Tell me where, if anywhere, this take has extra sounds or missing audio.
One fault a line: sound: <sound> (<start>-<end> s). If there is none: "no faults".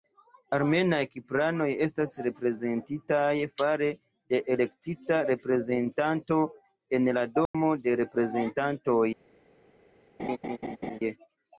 sound: dropout (7.5-7.5 s)
sound: laugh (10.2-11.0 s)